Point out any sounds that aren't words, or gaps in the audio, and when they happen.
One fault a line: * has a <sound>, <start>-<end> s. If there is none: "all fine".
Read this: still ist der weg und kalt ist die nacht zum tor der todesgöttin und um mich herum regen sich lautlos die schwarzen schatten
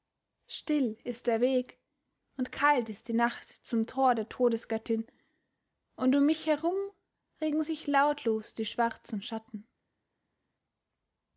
all fine